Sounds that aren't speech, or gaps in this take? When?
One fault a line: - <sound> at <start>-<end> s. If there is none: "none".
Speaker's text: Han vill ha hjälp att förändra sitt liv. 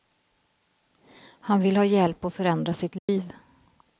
- dropout at 3.0-3.1 s